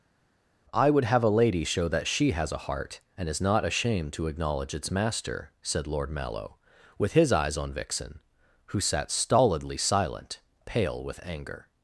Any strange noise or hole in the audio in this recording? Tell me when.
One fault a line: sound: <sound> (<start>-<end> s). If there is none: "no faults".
no faults